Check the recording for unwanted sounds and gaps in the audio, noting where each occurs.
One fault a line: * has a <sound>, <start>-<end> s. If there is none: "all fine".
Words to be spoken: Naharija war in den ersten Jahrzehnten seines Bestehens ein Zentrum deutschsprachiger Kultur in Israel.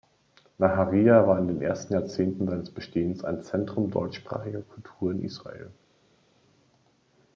all fine